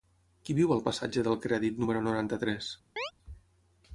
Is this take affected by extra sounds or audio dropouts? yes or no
yes